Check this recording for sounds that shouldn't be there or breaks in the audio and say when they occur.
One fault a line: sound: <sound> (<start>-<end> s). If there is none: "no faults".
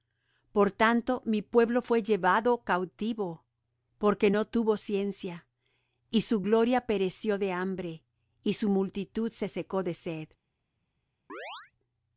sound: chirp (11.3-11.7 s)